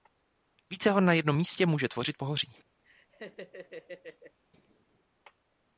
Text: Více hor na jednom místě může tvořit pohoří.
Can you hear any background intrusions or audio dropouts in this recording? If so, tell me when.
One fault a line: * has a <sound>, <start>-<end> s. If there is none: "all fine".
* has a laugh, 2.8-4.4 s